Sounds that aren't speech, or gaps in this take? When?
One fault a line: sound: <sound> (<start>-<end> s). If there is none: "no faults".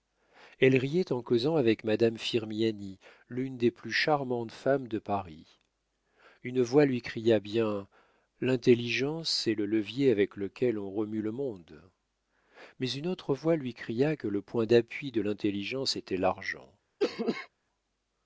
sound: cough (17.0-17.5 s)